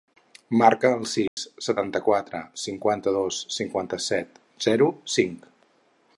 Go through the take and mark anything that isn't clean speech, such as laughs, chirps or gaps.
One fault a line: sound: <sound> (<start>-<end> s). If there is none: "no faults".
sound: dropout (1.3-1.4 s)